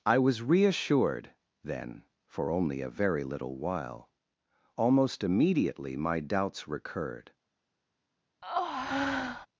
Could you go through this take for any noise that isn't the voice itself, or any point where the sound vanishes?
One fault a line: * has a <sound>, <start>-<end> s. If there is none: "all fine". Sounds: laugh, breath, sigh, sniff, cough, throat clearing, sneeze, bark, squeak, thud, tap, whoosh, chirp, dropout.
* has a breath, 8.4-9.5 s